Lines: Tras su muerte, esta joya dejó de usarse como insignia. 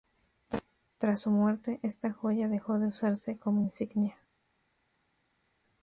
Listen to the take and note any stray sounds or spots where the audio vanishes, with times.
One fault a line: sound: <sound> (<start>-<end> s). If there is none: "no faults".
no faults